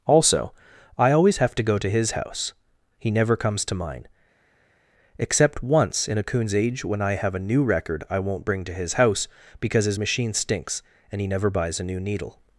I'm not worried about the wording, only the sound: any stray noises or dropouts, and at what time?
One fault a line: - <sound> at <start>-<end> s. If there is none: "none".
none